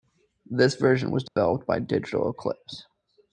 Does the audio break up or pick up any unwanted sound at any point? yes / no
yes